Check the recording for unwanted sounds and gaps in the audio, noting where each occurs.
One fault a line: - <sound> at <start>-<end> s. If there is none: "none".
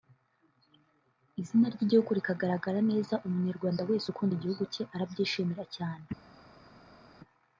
none